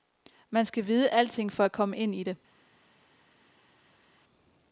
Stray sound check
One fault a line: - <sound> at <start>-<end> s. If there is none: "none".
none